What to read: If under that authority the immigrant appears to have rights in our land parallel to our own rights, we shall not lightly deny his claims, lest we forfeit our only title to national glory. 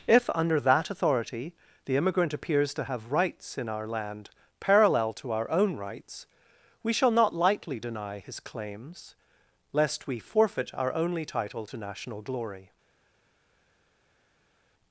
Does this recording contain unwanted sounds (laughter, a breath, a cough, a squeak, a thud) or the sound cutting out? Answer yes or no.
no